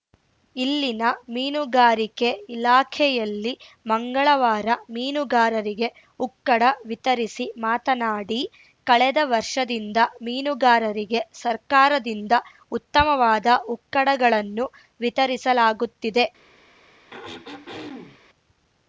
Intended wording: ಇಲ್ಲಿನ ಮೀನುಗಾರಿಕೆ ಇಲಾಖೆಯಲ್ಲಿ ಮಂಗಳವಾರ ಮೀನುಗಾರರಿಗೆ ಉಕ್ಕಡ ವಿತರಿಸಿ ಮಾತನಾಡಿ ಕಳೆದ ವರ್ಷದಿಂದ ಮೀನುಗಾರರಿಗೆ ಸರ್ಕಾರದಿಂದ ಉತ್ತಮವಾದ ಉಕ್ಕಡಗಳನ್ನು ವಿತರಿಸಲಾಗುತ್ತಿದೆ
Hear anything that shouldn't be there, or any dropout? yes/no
yes